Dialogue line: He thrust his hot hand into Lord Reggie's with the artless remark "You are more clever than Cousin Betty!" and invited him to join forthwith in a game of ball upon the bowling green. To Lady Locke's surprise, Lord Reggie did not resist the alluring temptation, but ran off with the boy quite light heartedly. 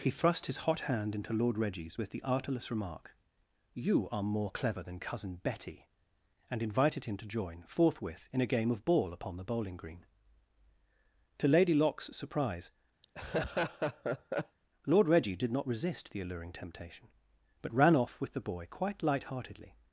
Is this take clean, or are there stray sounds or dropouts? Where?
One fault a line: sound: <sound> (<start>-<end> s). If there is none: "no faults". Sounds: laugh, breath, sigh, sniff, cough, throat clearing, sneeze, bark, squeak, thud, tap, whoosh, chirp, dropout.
sound: laugh (13.0-14.6 s)